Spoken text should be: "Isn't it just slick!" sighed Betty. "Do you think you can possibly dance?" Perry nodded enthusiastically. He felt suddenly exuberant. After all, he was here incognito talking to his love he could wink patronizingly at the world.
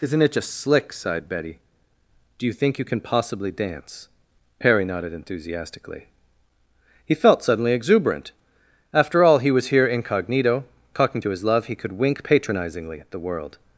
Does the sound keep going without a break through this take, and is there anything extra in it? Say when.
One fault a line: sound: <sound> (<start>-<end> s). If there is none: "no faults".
no faults